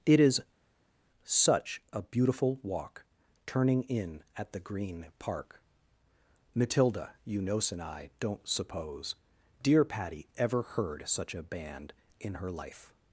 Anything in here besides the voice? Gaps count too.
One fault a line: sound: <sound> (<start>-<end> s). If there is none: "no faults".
no faults